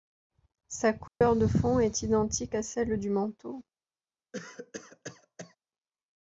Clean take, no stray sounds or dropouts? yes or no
no